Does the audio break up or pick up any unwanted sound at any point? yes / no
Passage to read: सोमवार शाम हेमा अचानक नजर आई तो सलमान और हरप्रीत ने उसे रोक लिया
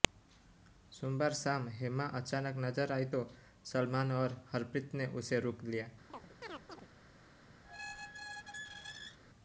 yes